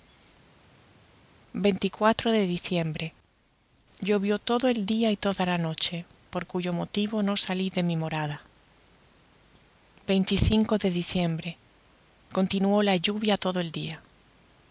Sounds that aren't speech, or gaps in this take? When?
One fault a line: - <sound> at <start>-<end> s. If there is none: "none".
none